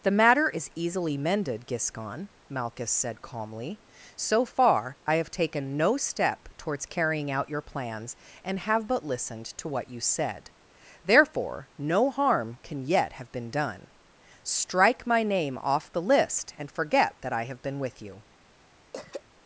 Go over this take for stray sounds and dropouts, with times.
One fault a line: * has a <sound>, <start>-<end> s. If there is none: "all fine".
* has a throat clearing, 18.9-19.2 s